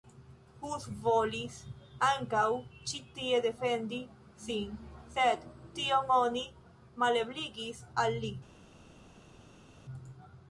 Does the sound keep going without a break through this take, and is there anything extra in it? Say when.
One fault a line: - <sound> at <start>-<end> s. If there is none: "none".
none